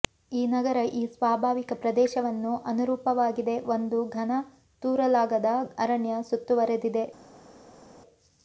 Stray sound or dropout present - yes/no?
no